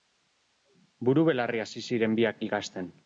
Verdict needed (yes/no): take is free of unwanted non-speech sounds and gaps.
yes